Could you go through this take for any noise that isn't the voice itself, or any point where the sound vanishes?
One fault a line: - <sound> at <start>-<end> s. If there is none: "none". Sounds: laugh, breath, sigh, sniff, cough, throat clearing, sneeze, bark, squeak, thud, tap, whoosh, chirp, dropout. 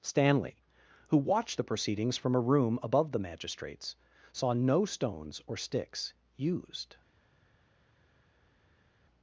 none